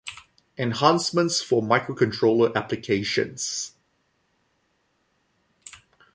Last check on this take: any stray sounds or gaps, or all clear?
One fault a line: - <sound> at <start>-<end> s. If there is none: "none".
none